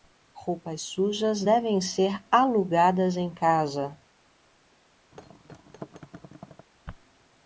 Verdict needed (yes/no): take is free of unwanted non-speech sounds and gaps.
no